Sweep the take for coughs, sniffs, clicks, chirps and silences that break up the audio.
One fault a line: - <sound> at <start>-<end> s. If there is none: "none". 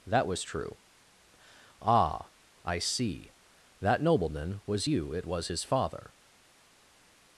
none